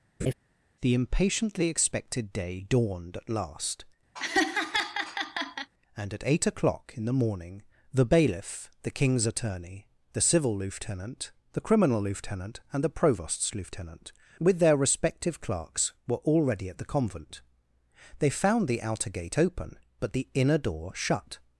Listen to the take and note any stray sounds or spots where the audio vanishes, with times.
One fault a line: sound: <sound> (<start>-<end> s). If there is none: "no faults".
sound: laugh (0.2-0.3 s)
sound: laugh (4.1-5.7 s)